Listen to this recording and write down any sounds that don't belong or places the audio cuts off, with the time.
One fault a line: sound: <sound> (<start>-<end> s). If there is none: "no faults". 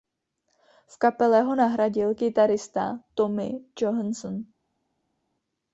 no faults